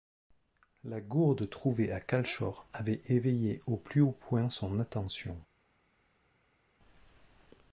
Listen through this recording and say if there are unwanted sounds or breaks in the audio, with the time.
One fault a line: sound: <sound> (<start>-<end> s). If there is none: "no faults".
no faults